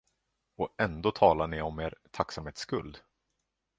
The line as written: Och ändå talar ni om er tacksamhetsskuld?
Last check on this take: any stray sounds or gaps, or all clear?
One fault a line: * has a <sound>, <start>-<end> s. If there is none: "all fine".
all fine